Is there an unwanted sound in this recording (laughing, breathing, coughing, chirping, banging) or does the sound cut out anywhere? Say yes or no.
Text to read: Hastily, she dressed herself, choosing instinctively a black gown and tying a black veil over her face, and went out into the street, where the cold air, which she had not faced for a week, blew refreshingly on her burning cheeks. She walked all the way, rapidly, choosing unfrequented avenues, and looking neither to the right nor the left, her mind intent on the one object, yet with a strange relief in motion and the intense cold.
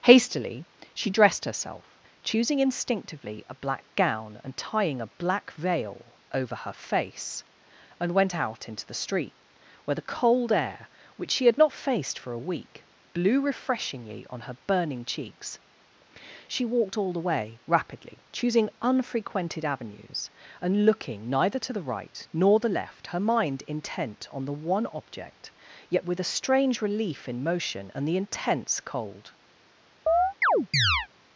yes